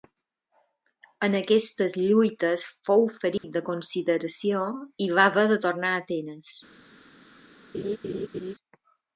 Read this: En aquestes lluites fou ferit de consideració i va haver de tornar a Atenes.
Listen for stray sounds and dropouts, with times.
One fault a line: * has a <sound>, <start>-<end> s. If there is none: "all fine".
* has a dropout, 3.4-3.4 s
* has a laugh, 7.7-8.5 s